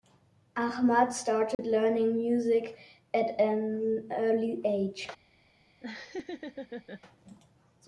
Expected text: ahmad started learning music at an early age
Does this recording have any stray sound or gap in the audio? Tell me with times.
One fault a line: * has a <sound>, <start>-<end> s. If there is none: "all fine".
* has a dropout, 1.5-1.6 s
* has a laugh, 5.8-7.0 s